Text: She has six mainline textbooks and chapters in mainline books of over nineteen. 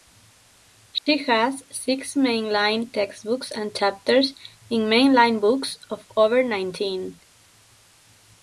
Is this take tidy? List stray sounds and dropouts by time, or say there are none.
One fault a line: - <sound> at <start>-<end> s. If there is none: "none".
- dropout at 1.0-1.1 s